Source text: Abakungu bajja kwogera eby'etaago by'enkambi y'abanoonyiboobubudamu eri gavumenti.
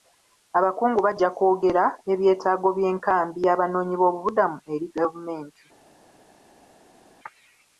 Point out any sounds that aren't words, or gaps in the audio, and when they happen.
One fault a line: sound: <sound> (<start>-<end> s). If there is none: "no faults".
no faults